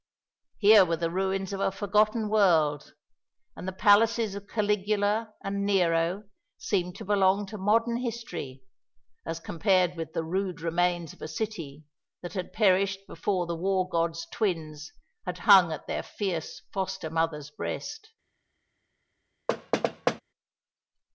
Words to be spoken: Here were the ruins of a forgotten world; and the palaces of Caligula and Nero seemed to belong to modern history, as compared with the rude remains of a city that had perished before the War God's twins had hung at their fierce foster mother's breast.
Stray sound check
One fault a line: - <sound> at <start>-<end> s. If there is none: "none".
- thud at 19.5-20.2 s